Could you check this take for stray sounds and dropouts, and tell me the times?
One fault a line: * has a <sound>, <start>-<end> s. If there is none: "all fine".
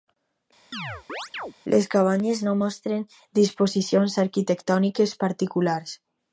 * has a chirp, 0.7-1.5 s